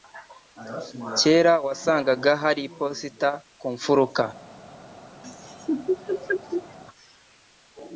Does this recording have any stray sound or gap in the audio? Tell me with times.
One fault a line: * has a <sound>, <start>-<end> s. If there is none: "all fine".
* has a laugh, 5.2-6.8 s